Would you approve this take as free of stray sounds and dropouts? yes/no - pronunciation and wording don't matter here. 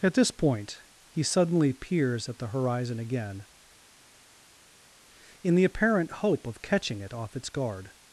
yes